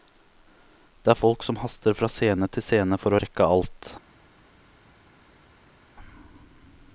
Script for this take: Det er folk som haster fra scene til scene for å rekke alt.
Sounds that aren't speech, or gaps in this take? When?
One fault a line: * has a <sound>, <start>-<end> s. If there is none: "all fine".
all fine